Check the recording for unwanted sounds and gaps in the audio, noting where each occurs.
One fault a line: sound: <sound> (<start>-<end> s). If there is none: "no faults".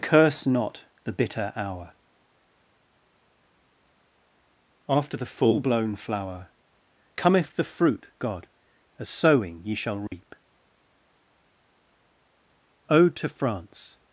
sound: dropout (10.1-10.1 s)